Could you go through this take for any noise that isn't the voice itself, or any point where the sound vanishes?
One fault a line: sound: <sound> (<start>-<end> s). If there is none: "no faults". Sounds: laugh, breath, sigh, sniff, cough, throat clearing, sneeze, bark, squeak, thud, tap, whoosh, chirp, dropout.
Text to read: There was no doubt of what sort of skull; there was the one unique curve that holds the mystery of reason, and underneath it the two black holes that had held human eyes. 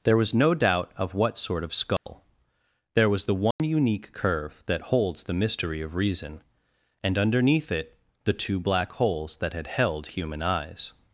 sound: dropout (2.0-2.1 s)
sound: dropout (3.5-3.6 s)